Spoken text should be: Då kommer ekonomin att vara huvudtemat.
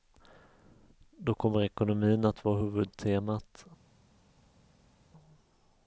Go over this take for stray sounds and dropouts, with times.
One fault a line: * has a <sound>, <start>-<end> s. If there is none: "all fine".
all fine